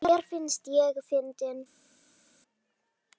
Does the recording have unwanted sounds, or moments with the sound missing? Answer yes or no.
no